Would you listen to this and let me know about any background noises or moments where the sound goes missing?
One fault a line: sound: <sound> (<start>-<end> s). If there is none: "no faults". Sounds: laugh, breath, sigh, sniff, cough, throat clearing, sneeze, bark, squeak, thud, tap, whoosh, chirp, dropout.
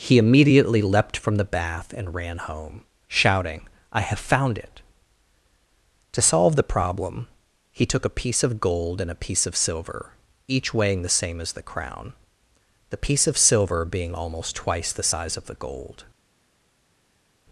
no faults